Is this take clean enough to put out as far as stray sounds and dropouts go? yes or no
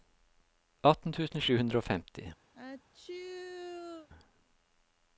no